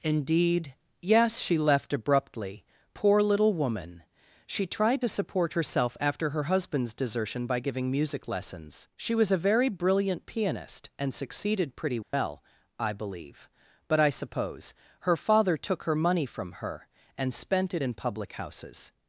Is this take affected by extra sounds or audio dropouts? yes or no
yes